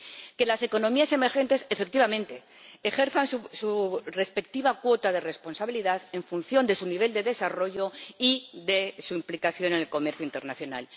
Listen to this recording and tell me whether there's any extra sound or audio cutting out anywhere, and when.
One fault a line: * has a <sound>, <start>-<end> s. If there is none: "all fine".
all fine